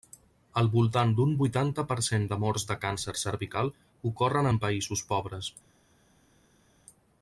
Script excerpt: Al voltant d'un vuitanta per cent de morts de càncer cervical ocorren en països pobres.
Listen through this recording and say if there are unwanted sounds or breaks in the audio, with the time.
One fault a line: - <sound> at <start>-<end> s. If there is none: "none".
none